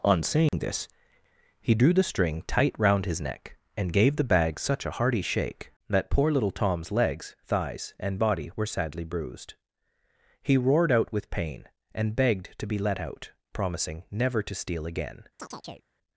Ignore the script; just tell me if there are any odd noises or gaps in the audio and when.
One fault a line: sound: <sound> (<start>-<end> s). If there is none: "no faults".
sound: dropout (0.5-0.5 s)
sound: chirp (15.4-15.9 s)